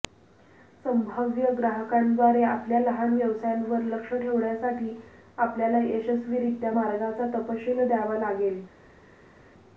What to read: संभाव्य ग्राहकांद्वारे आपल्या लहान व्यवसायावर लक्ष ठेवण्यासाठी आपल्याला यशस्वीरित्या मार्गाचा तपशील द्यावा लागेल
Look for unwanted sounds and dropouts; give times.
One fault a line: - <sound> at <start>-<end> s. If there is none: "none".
none